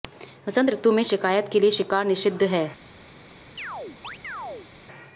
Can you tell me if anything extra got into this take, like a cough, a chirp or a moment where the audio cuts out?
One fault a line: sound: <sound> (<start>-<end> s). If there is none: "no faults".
sound: chirp (3.6-4.7 s)